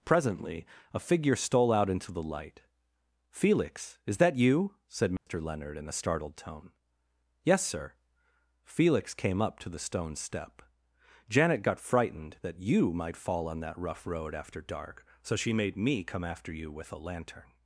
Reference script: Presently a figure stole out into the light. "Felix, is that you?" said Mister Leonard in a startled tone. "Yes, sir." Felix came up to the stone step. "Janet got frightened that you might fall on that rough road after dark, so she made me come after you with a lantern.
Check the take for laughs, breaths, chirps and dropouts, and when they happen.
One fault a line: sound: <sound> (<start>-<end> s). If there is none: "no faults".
sound: dropout (5.2-5.3 s)